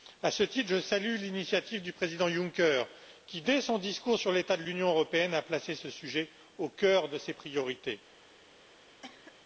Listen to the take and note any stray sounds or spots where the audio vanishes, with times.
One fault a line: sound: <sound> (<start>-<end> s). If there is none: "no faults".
sound: cough (9.0-9.4 s)